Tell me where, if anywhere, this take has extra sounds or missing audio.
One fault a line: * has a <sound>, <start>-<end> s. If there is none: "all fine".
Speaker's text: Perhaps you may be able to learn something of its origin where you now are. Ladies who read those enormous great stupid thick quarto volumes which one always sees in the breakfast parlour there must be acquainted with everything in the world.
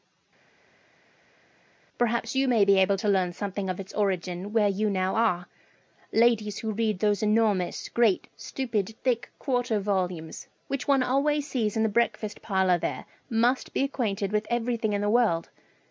all fine